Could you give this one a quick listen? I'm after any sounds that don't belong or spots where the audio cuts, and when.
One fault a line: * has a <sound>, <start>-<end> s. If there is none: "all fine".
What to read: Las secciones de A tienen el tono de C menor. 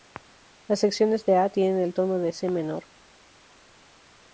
all fine